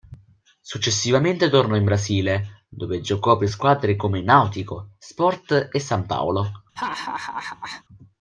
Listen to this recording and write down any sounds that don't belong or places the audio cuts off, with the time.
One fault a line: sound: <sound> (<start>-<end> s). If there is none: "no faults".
sound: laugh (6.8-7.8 s)